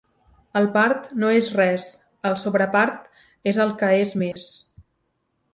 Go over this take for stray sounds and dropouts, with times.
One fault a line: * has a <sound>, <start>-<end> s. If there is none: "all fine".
* has a dropout, 4.3-4.4 s